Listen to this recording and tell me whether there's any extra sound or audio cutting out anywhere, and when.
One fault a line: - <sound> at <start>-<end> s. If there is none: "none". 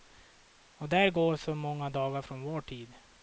none